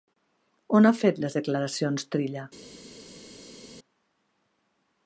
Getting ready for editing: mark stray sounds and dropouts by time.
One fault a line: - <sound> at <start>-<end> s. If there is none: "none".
none